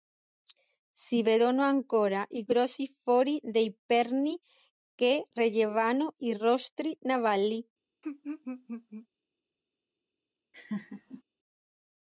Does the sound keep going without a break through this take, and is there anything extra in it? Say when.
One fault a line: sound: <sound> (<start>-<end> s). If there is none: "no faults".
sound: laugh (8.0-9.1 s)
sound: laugh (10.5-11.2 s)